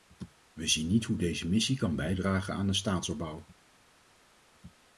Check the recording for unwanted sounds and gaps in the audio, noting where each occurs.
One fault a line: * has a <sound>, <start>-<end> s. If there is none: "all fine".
all fine